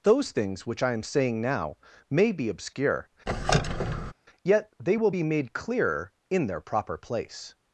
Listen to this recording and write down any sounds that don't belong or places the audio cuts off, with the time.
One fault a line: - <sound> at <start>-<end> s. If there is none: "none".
- squeak at 3.3-4.1 s